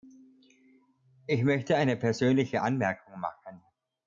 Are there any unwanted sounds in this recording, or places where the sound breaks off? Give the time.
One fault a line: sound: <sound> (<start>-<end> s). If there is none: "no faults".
no faults